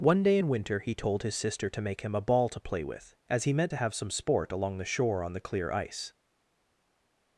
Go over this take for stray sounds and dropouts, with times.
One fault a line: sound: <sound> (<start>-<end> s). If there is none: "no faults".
no faults